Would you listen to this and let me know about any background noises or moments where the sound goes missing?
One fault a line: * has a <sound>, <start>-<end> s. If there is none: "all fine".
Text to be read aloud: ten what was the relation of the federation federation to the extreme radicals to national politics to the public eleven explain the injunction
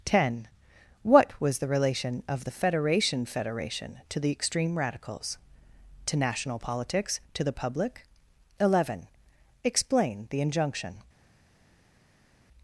all fine